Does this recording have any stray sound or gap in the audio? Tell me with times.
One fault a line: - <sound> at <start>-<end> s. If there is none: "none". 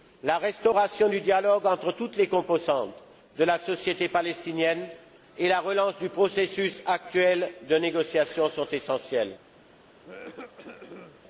- cough at 10.0-11.2 s